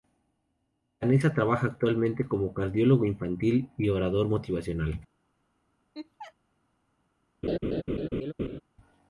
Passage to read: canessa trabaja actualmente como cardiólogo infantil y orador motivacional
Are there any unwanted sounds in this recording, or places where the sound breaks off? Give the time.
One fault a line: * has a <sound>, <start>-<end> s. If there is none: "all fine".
* has a laugh, 5.9-6.3 s
* has a laugh, 7.4-8.6 s